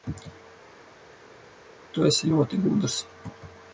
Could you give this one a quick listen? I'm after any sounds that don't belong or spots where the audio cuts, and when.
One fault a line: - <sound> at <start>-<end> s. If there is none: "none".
none